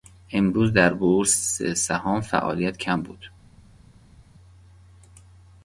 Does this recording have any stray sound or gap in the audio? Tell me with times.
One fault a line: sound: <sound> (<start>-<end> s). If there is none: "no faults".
no faults